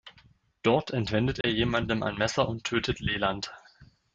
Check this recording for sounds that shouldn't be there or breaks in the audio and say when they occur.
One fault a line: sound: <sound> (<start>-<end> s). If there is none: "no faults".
sound: dropout (1.4-1.4 s)